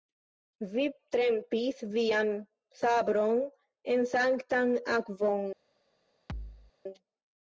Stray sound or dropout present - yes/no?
yes